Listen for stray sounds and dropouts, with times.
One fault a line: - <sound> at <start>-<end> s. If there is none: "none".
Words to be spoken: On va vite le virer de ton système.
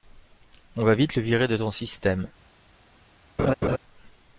- laugh at 3.4-3.8 s